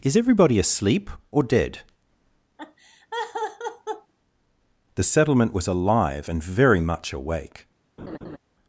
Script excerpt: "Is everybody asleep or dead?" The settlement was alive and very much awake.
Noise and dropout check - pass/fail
fail